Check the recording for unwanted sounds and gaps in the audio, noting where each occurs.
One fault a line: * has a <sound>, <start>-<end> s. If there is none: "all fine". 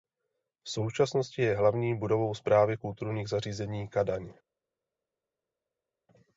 all fine